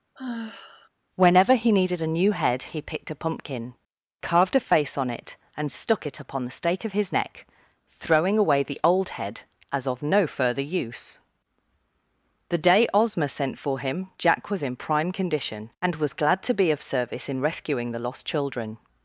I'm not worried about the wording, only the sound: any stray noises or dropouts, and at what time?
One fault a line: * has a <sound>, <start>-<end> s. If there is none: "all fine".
* has a sigh, 0.2-0.9 s